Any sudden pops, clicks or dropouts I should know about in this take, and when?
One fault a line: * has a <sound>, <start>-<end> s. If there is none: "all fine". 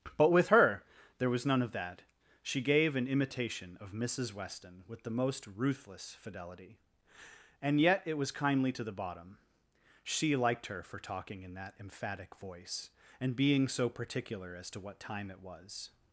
all fine